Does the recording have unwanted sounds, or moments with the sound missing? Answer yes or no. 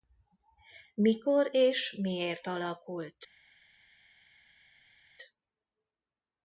no